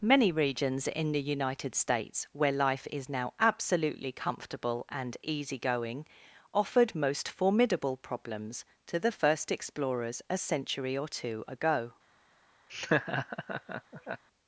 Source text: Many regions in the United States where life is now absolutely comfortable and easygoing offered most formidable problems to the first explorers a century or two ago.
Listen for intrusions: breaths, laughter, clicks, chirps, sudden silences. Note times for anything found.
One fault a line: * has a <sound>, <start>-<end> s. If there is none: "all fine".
* has a laugh, 12.7-14.2 s